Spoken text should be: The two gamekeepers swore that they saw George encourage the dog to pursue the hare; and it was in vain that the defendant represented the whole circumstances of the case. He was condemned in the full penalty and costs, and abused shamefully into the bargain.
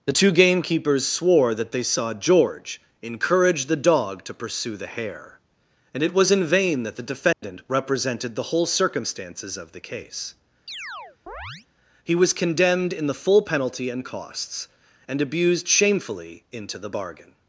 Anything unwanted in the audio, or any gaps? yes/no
yes